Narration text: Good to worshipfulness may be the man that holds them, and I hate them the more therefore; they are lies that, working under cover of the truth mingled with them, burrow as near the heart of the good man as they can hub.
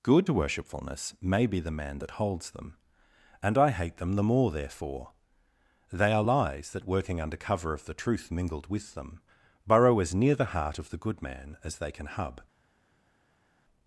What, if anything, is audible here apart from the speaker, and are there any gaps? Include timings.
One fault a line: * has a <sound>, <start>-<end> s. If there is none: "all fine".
all fine